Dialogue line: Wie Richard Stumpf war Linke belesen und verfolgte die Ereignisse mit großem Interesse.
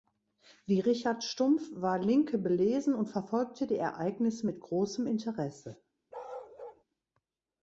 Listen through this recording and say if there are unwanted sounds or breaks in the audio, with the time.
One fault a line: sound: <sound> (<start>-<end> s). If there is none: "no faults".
sound: bark (6.1-6.8 s)